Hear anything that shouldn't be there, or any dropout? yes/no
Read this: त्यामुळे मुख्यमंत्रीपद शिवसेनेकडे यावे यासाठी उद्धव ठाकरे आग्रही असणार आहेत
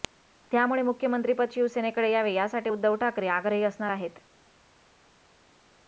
no